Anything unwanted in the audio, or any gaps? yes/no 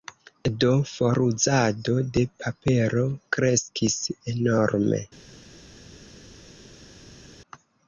no